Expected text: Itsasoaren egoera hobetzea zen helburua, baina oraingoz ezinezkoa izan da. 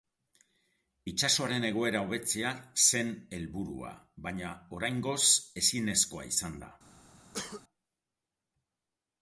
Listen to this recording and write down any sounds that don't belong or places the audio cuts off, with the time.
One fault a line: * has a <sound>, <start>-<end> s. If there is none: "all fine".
* has a cough, 7.3-7.6 s